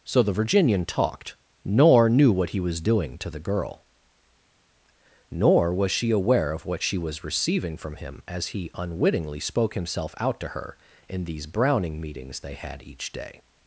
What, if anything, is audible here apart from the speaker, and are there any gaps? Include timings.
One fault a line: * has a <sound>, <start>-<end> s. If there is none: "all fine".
all fine